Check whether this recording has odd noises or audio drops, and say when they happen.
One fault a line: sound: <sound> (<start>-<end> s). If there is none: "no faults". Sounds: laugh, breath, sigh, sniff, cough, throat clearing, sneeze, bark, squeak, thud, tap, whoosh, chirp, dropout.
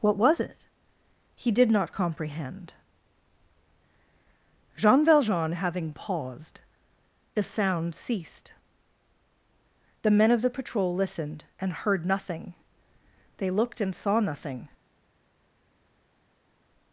no faults